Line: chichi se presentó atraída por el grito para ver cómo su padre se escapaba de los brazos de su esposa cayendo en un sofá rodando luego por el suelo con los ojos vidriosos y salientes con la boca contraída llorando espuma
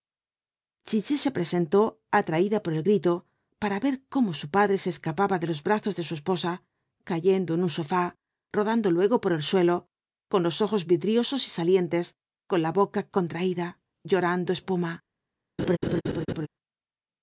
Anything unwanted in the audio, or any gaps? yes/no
yes